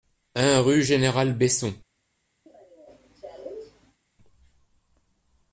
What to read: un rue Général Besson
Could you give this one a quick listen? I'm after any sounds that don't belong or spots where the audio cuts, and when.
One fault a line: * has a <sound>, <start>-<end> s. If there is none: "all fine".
* has a cough, 2.5-4.0 s